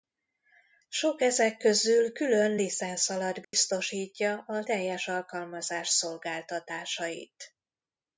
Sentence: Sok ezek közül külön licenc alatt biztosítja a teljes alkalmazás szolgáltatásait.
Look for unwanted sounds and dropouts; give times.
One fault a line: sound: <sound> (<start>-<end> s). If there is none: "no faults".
sound: dropout (3.4-3.5 s)